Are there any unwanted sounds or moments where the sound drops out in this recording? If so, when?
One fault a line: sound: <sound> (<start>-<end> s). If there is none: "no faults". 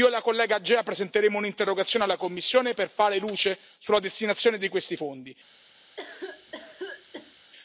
sound: cough (6.0-7.5 s)